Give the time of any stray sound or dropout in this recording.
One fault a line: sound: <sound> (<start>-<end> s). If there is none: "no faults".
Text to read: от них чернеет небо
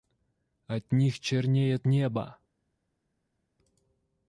no faults